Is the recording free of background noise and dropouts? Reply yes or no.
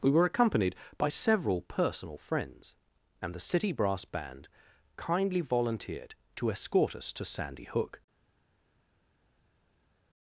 yes